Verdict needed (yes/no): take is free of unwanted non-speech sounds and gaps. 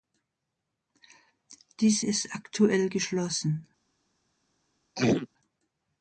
no